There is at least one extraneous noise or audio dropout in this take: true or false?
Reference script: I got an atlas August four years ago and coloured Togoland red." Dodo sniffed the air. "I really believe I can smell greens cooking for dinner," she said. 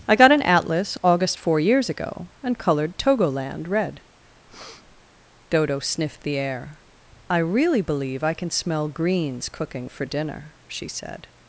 true